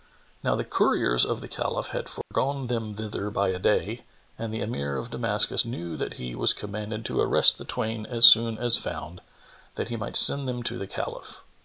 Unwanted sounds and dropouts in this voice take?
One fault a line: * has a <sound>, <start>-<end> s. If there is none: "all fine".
* has a dropout, 2.2-2.3 s